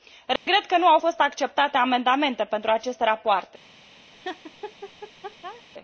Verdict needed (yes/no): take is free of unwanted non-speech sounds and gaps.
no